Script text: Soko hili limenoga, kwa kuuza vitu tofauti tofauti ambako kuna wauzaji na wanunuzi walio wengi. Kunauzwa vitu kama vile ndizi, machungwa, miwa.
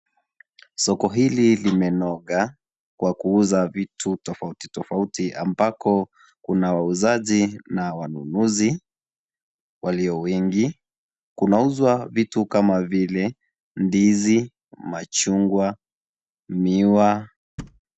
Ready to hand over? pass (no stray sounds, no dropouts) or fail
fail